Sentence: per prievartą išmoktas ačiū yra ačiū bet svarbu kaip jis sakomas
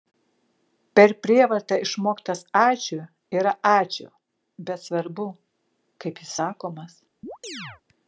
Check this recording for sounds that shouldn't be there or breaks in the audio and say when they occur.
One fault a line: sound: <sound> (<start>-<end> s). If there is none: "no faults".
sound: chirp (7.2-7.8 s)